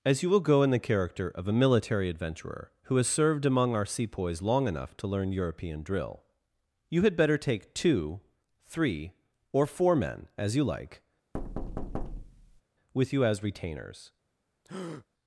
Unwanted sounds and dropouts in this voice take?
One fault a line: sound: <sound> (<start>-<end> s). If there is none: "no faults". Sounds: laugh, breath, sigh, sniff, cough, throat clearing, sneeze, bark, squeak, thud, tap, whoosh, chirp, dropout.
sound: thud (11.3-12.6 s)
sound: breath (14.6-15.1 s)